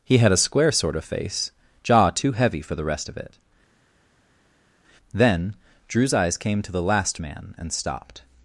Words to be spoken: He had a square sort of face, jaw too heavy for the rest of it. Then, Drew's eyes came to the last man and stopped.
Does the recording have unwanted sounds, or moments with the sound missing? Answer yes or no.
no